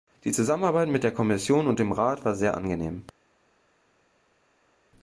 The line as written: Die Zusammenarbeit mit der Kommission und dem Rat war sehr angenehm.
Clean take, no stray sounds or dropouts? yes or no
yes